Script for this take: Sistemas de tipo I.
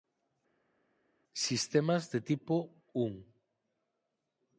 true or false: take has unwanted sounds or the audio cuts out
false